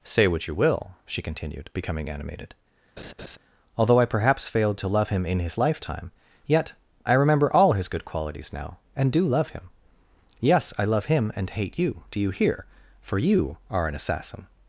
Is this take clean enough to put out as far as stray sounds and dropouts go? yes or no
no